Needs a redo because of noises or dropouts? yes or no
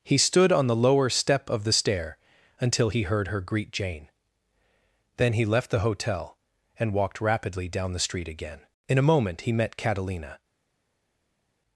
no